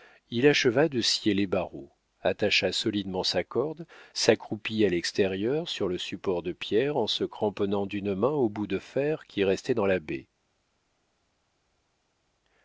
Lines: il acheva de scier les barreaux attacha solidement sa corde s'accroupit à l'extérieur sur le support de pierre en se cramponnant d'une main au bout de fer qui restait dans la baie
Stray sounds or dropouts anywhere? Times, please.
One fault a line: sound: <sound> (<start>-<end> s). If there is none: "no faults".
no faults